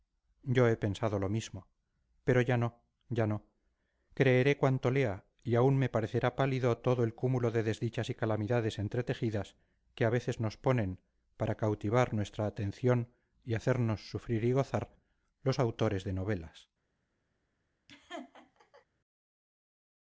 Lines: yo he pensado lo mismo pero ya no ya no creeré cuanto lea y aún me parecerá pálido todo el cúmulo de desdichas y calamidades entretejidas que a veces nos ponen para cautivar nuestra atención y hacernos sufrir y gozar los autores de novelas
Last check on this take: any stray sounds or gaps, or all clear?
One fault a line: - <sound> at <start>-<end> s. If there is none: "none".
- laugh at 17.9-18.9 s